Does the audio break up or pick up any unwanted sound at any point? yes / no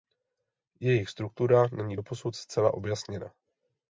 no